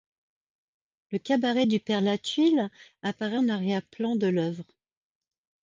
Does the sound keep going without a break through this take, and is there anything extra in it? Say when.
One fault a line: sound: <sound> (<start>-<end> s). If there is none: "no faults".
no faults